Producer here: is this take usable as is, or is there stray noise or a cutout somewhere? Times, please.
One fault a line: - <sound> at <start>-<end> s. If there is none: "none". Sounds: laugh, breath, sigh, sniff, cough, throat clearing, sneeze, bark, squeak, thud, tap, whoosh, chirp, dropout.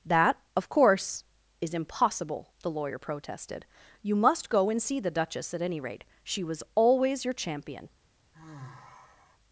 - sigh at 8.3-9.4 s